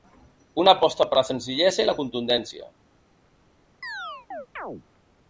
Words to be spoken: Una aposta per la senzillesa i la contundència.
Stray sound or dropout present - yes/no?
yes